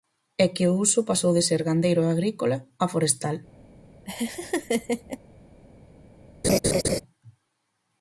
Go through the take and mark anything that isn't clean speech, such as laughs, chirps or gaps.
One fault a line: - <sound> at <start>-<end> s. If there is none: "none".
- laugh at 4.1-5.2 s
- laugh at 6.4-7.0 s